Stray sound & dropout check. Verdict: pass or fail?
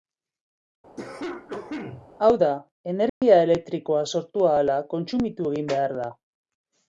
fail